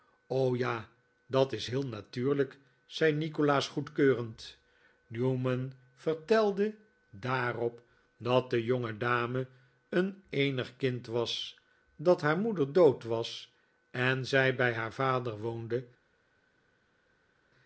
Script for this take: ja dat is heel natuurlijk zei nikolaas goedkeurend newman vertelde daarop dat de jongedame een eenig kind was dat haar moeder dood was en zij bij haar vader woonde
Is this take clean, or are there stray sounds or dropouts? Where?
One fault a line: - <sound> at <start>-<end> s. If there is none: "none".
none